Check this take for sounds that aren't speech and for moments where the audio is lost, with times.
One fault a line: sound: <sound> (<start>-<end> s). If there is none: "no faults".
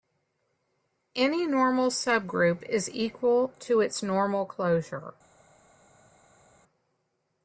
no faults